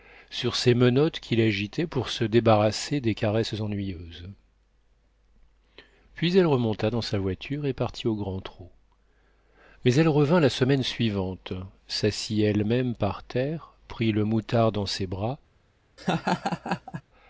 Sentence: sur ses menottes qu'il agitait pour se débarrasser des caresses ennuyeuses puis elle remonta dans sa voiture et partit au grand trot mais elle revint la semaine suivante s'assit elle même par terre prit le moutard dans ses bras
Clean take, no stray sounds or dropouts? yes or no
no